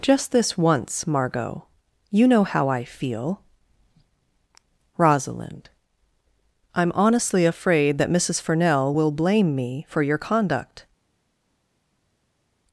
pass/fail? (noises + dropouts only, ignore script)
pass